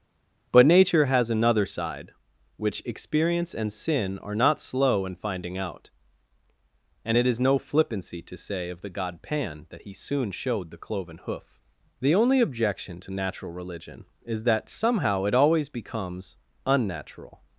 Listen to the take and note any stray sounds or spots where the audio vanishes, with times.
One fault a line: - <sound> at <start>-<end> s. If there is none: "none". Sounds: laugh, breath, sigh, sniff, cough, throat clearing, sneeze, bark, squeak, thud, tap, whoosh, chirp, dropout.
none